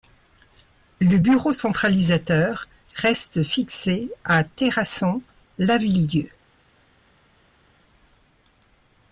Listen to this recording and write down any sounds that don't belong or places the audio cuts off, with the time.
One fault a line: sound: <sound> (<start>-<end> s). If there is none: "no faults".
no faults